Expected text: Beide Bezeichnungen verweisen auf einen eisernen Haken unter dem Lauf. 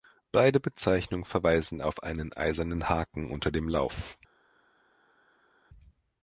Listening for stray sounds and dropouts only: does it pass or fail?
pass